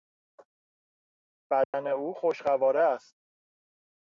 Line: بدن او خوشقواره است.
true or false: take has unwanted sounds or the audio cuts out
true